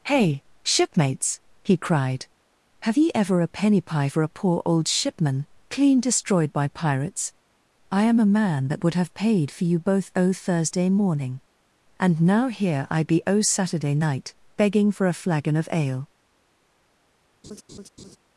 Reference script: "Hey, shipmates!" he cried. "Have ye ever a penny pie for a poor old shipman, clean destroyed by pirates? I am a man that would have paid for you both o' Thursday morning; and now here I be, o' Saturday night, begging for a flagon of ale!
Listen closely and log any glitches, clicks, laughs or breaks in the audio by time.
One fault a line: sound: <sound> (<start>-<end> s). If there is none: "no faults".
sound: laugh (17.4-18.2 s)